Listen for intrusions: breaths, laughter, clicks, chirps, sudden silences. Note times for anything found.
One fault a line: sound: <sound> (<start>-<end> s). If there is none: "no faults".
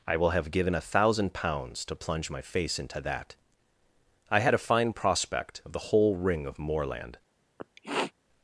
sound: sniff (7.6-8.1 s)